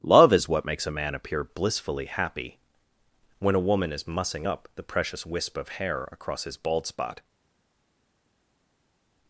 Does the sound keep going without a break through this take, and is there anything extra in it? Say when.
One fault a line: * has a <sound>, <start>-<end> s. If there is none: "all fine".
all fine